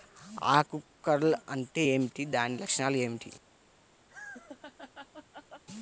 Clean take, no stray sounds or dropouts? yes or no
no